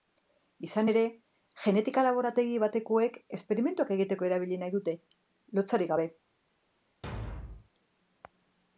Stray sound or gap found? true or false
true